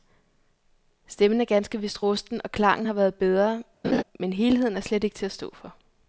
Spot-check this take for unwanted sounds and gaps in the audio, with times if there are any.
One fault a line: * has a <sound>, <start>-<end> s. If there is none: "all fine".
* has a laugh, 3.8-4.0 s